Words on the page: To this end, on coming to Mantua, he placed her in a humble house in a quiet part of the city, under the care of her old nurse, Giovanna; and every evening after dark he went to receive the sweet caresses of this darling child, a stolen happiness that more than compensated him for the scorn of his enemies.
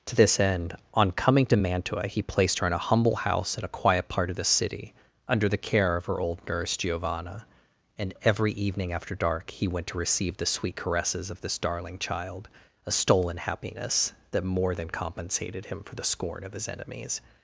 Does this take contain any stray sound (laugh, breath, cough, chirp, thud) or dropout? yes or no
no